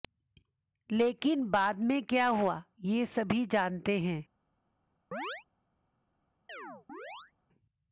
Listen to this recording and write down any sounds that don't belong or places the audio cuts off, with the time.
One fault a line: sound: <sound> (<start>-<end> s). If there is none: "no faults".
sound: chirp (5.1-5.4 s)
sound: chirp (6.5-7.3 s)